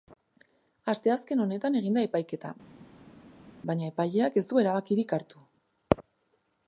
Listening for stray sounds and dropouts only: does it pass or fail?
pass